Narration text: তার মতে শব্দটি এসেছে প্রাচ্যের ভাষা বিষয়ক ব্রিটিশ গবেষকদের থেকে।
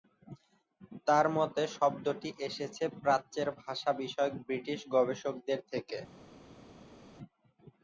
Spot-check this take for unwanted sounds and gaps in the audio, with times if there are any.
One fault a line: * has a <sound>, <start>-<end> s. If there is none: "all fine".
all fine